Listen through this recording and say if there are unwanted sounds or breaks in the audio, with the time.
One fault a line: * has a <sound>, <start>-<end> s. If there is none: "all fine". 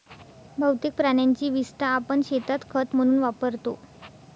all fine